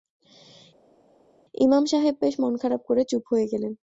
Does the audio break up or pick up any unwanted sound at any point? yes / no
no